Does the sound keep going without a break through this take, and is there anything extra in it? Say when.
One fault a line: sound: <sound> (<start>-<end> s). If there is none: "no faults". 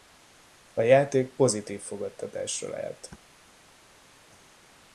no faults